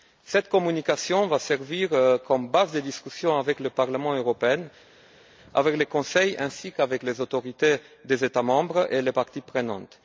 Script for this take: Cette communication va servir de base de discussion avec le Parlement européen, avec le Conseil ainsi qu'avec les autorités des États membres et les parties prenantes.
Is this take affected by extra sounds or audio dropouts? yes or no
no